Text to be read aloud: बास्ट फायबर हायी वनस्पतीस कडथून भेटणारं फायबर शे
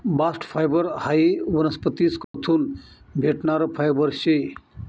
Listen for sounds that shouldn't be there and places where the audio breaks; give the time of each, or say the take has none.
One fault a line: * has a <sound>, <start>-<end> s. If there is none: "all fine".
* has a dropout, 2.2-2.3 s